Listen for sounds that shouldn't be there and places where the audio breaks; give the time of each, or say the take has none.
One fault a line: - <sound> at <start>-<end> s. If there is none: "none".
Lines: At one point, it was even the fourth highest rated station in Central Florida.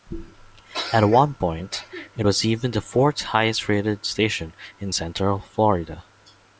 none